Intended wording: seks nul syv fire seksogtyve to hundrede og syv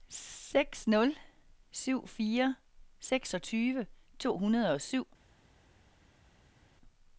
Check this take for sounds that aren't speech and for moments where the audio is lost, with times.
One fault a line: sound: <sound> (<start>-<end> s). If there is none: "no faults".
no faults